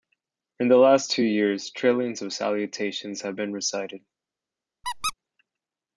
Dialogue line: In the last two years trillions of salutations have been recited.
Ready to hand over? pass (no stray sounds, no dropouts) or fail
fail